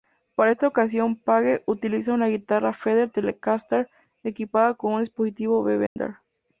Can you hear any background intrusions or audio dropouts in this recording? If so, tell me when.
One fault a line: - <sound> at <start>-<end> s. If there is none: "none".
- dropout at 5.9-6.0 s